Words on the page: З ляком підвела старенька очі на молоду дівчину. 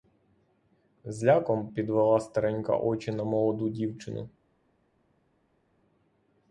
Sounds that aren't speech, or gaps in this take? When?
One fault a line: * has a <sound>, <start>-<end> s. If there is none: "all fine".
all fine